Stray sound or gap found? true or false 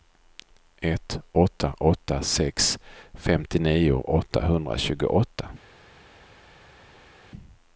false